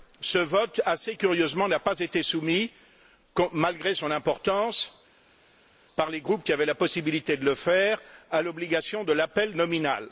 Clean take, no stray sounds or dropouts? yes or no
yes